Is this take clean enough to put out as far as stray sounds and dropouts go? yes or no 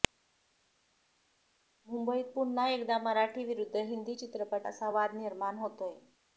yes